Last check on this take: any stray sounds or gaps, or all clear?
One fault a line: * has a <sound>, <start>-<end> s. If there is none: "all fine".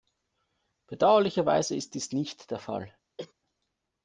* has a cough, 3.2-3.3 s